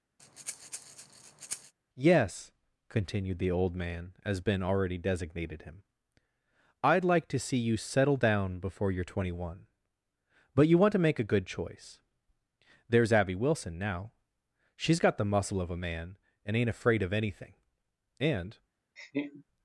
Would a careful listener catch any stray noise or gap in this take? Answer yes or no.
yes